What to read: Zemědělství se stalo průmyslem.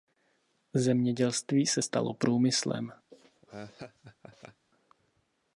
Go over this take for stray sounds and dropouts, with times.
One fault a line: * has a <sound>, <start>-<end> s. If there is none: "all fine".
* has a laugh, 3.1-4.6 s